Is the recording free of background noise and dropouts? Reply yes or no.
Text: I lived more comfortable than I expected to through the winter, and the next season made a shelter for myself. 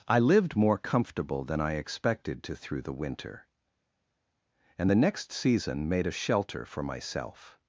yes